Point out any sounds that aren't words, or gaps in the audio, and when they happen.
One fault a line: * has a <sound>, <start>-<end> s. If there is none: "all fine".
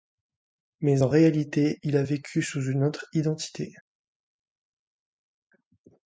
all fine